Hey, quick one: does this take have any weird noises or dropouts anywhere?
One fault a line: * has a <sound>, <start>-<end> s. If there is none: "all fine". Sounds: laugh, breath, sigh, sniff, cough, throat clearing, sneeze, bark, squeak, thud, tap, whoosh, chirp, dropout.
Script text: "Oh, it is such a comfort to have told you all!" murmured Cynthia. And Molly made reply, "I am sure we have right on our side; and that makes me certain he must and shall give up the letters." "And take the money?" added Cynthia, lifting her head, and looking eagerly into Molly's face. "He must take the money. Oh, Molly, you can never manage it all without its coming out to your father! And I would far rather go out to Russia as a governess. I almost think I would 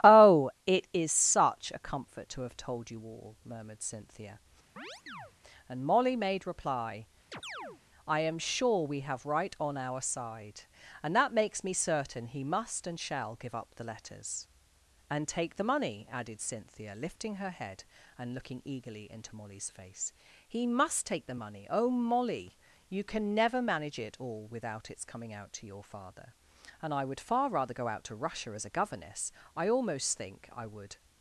* has a chirp, 4.8-5.3 s
* has a chirp, 7.3-7.8 s